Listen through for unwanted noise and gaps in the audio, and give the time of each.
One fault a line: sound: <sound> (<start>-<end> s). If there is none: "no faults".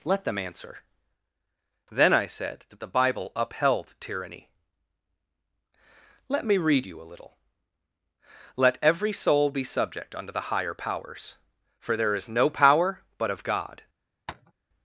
sound: tap (14.3-14.5 s)